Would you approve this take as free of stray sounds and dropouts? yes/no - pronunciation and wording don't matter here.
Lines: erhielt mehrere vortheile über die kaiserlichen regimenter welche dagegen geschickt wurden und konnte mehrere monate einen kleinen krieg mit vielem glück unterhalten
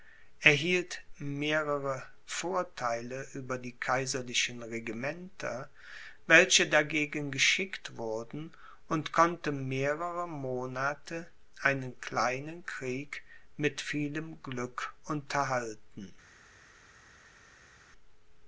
yes